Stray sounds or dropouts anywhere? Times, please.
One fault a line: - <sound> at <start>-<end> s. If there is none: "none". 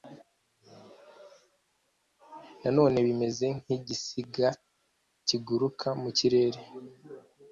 none